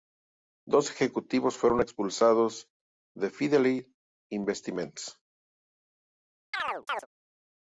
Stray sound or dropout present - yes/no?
yes